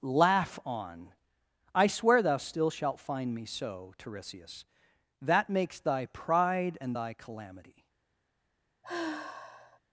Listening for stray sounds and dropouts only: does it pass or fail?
fail